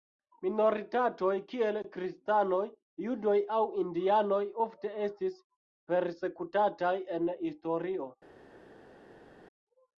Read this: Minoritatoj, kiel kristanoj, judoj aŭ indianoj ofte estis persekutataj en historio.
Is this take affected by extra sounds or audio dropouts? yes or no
no